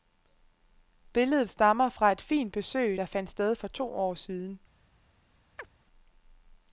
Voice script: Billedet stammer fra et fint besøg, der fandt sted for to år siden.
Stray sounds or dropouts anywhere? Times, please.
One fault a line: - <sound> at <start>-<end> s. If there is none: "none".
- chirp at 5.6-5.7 s